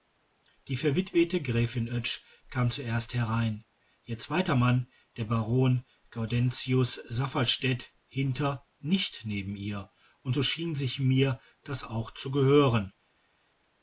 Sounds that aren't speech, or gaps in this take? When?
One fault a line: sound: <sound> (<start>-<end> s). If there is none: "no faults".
no faults